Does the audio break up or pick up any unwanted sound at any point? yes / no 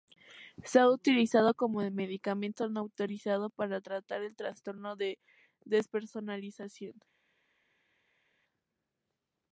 no